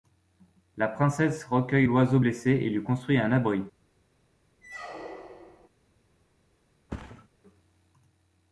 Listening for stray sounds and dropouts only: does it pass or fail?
fail